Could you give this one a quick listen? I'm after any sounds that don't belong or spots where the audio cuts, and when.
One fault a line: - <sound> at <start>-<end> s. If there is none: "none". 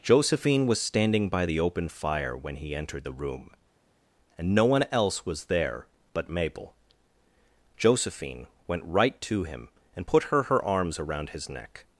none